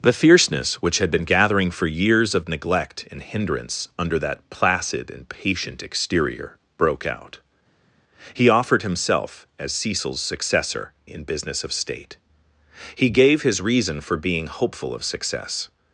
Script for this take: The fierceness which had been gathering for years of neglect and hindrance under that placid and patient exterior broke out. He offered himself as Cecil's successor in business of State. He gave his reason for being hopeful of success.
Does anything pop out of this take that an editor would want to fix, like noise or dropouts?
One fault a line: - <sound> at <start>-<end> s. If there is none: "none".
none